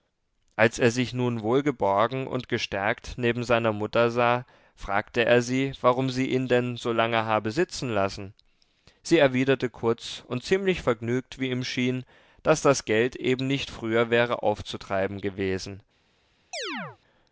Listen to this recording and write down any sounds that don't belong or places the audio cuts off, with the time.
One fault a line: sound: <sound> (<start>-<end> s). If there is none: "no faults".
sound: chirp (16.5-17.0 s)